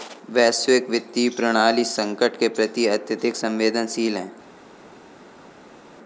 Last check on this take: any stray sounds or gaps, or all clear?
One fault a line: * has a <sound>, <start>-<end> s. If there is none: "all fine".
all fine